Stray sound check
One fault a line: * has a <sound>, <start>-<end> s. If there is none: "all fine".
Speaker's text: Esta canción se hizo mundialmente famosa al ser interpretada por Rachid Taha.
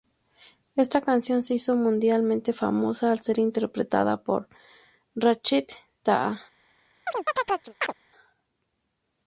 * has a chirp, 7.1-7.9 s